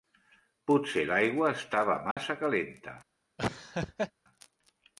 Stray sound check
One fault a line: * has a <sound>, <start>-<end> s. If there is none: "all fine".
* has a dropout, 2.1-2.2 s
* has a laugh, 3.4-4.1 s